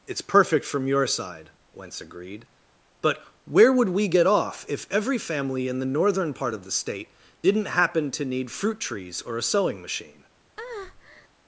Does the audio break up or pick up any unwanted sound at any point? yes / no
yes